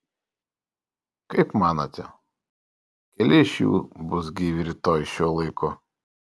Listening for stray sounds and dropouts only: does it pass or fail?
pass